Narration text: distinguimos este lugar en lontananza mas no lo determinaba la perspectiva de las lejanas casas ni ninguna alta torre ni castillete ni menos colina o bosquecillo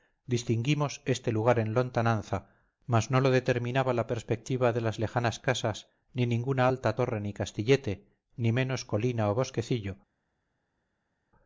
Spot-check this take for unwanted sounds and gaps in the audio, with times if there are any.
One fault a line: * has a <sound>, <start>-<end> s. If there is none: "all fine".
all fine